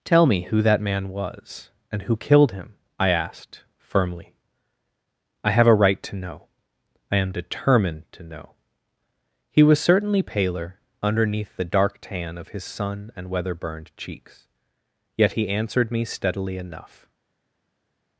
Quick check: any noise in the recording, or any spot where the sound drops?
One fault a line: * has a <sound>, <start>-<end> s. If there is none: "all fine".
all fine